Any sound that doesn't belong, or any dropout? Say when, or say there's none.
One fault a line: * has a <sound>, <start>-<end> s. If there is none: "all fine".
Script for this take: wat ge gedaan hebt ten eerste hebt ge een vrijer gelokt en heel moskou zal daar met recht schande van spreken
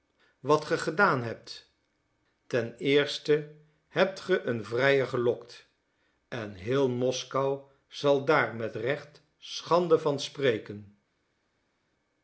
all fine